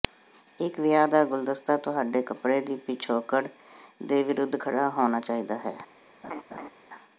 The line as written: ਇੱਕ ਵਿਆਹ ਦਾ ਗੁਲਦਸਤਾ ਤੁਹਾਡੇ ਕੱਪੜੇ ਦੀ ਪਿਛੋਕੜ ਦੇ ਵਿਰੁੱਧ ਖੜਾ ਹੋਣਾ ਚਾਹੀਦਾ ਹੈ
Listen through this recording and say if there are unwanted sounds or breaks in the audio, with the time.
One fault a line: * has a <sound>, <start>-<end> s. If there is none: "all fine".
* has a laugh, 6.2-6.7 s